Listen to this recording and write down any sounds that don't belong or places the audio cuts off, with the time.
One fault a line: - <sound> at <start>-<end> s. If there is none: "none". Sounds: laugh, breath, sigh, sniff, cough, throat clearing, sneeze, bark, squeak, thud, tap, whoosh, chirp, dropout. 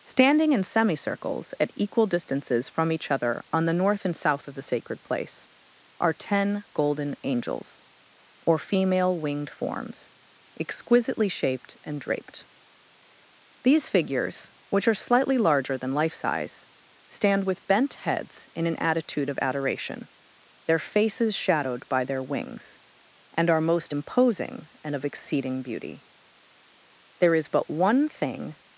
none